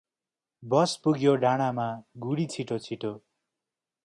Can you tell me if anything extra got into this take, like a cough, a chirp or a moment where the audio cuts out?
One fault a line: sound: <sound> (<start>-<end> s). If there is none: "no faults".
no faults